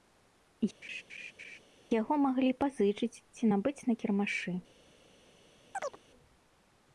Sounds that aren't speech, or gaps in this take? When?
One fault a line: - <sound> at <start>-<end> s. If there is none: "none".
- laugh at 0.8-1.6 s
- chirp at 5.7-6.0 s